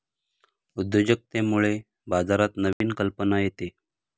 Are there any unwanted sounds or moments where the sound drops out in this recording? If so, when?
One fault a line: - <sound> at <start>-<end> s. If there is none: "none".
- dropout at 2.7-2.8 s